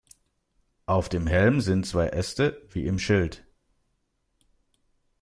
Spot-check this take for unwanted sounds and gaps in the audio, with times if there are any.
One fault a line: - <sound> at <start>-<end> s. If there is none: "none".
none